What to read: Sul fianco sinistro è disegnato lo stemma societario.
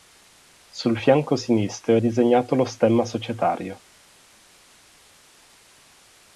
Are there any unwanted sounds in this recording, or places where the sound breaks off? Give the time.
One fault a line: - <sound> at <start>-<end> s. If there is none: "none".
none